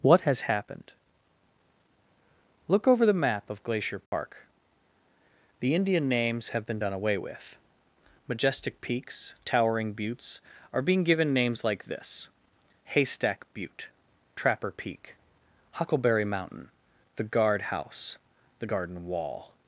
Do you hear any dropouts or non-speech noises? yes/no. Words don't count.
yes